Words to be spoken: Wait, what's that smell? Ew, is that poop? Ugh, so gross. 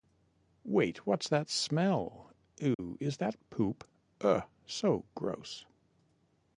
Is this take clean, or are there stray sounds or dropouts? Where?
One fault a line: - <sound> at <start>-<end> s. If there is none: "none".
- dropout at 2.7-2.8 s